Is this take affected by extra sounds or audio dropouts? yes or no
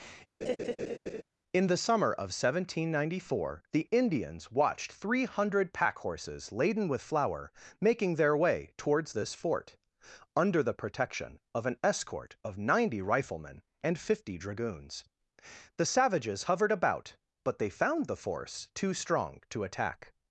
yes